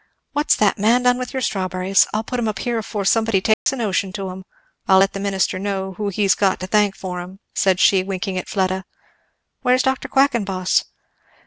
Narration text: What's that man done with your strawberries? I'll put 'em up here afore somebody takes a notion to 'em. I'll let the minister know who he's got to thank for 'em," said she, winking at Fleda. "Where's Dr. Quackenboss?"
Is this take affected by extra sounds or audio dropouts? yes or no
yes